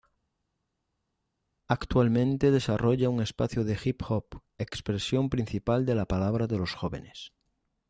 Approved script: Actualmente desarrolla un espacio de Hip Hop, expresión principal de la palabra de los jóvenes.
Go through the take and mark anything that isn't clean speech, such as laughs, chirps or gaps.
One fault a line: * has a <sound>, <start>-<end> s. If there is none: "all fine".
all fine